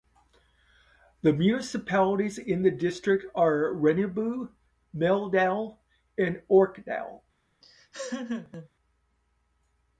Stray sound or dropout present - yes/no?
yes